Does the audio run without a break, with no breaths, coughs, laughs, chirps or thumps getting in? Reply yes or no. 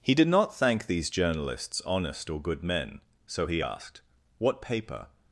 yes